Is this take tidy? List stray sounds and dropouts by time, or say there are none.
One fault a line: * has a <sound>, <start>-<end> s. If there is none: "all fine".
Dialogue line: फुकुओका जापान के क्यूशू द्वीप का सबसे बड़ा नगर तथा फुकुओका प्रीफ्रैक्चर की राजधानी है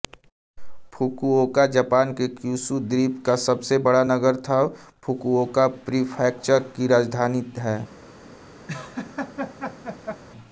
* has a laugh, 8.7-10.2 s